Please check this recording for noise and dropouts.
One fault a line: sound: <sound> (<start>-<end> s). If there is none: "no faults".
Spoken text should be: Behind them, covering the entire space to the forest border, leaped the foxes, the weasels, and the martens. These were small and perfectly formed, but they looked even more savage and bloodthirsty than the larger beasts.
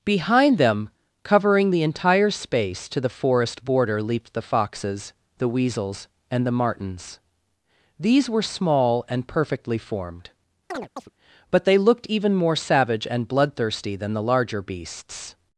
sound: chirp (10.7-11.1 s)